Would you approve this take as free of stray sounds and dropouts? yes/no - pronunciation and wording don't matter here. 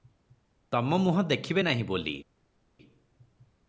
yes